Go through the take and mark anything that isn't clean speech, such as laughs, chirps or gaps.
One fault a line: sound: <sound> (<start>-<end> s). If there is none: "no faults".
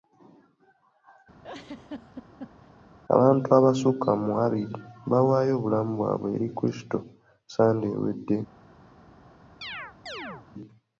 sound: laugh (1.4-2.7 s)
sound: chirp (9.6-10.5 s)